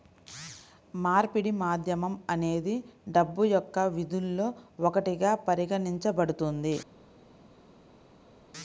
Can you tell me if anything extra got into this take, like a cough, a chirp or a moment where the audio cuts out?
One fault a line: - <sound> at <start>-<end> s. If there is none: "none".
none